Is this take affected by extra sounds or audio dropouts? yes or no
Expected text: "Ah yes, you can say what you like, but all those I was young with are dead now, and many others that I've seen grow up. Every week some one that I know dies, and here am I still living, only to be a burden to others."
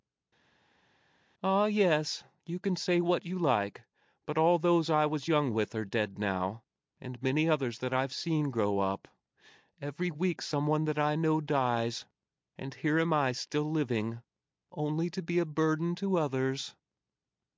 no